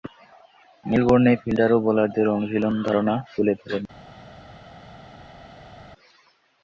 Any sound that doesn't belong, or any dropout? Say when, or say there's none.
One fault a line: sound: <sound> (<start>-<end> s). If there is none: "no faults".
no faults